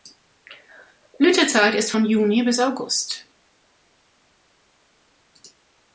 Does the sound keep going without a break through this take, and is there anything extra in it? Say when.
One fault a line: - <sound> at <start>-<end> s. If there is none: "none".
none